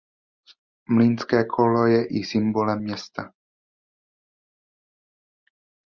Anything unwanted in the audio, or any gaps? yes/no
no